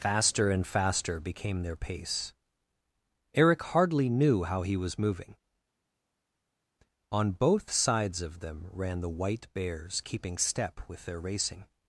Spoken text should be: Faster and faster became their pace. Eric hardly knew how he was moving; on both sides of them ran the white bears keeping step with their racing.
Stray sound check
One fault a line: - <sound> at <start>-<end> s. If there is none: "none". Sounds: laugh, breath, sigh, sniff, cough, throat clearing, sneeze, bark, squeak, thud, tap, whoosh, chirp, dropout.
none